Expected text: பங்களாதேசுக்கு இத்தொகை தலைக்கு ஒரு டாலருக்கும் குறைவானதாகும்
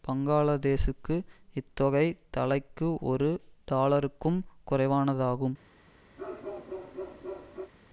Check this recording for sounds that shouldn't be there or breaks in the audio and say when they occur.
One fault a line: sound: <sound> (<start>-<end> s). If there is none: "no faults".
sound: bark (6.2-7.7 s)